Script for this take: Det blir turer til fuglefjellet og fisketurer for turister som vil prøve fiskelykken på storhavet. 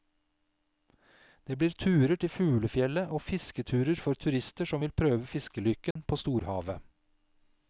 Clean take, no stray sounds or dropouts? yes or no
no